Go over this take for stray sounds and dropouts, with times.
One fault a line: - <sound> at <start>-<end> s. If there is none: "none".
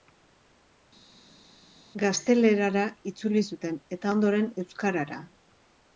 none